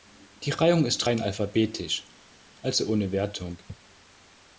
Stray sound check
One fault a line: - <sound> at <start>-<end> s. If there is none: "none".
none